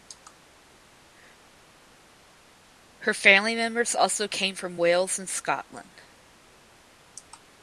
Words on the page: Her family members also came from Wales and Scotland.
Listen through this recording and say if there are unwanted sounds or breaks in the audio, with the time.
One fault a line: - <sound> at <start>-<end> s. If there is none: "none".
none